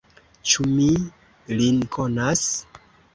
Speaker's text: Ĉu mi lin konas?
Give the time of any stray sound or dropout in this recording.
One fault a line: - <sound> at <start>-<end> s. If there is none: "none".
none